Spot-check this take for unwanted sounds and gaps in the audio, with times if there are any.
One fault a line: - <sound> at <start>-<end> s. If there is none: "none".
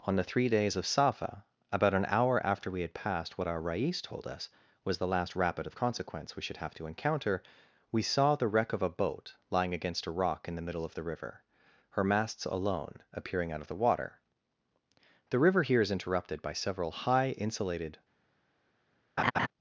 - laugh at 19.2-19.5 s